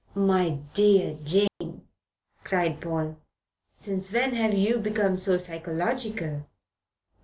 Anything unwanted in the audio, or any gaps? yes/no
yes